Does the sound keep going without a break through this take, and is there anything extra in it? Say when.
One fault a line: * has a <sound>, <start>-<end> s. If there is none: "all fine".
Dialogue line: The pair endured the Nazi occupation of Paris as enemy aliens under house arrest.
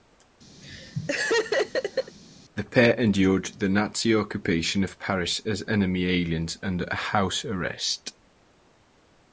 * has a laugh, 0.6-2.2 s